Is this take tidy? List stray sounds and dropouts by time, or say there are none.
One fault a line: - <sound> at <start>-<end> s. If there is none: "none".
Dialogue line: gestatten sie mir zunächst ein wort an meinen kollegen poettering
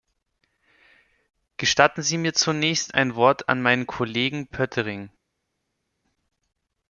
none